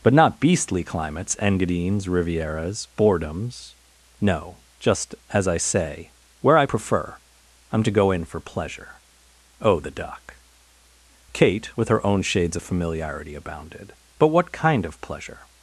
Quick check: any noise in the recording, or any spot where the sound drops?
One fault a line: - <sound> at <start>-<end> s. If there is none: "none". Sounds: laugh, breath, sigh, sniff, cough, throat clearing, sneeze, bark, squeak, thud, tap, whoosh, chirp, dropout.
none